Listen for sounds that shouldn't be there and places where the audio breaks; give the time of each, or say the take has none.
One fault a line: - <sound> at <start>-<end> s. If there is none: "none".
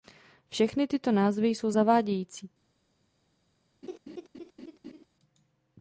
- laugh at 3.8-5.1 s